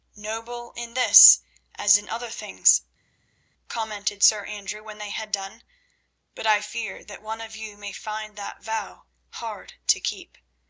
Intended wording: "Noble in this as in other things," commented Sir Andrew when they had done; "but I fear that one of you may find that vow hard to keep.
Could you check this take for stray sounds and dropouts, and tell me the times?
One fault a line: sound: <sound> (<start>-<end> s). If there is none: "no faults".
no faults